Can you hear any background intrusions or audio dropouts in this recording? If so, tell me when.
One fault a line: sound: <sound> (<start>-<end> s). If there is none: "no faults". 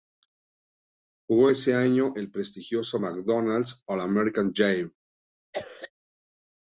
sound: cough (5.5-5.9 s)